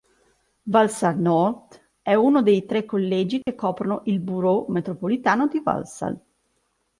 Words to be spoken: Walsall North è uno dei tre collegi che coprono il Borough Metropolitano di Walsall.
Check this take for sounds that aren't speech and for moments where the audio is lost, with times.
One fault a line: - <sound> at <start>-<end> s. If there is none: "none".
- dropout at 3.4-3.5 s